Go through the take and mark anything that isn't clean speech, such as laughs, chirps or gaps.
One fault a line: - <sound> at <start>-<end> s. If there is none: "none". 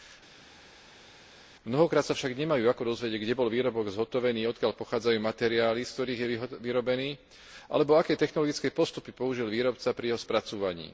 none